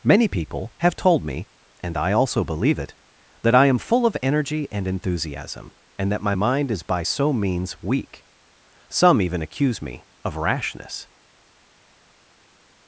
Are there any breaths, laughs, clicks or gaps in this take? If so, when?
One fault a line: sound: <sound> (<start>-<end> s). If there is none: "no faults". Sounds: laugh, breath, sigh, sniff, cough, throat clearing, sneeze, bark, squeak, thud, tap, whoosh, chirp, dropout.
no faults